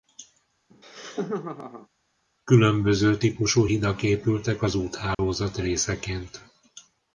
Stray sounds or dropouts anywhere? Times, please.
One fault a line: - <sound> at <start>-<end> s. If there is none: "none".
- laugh at 0.7-1.9 s
- dropout at 5.1-5.2 s